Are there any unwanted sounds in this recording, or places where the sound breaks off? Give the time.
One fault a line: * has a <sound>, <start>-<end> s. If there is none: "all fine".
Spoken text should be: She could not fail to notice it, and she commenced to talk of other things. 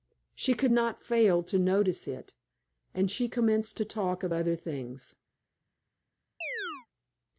* has a chirp, 6.4-6.9 s